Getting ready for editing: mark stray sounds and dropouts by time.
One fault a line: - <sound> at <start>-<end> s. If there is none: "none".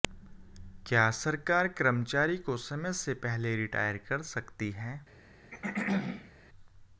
- throat clearing at 5.5-6.3 s